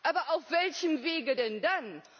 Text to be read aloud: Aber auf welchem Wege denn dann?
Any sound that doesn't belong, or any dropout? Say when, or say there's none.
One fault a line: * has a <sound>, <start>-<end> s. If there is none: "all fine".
all fine